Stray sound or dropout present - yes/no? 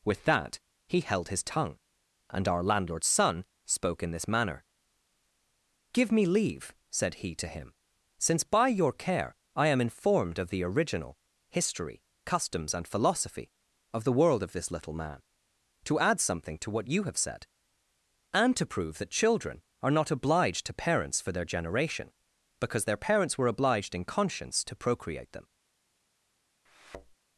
yes